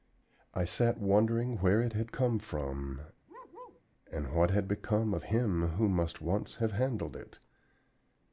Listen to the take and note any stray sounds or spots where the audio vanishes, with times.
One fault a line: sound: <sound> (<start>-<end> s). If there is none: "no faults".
sound: bark (3.3-3.8 s)